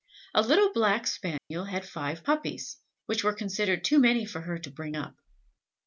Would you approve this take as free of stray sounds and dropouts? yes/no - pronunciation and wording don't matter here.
no